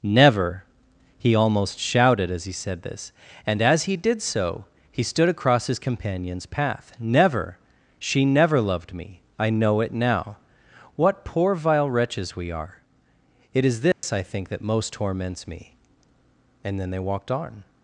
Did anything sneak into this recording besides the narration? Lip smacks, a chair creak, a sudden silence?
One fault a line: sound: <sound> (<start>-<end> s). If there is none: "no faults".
sound: dropout (13.9-14.0 s)